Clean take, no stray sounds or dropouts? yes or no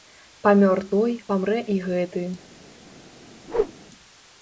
no